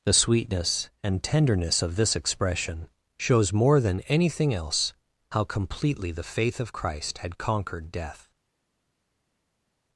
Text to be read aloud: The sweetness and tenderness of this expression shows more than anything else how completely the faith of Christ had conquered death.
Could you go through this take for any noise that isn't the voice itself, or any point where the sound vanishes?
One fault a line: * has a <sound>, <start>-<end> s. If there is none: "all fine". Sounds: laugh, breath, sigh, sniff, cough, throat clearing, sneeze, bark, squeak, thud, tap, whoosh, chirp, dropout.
all fine